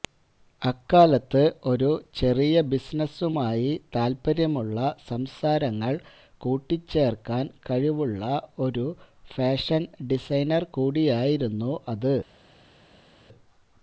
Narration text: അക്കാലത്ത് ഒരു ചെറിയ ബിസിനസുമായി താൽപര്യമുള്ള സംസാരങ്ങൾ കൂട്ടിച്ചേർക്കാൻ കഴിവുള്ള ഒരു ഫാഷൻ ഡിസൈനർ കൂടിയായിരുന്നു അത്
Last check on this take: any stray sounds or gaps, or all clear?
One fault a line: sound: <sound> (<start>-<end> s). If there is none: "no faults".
no faults